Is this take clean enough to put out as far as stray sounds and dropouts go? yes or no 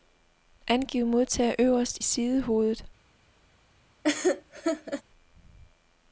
no